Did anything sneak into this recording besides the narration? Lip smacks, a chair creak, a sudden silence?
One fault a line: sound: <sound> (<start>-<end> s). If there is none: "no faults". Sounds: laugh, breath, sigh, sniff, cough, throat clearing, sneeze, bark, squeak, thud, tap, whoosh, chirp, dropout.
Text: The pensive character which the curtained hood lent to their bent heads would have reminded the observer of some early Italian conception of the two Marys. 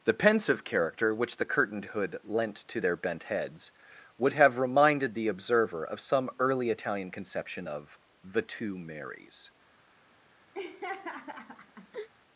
sound: laugh (10.5-12.1 s)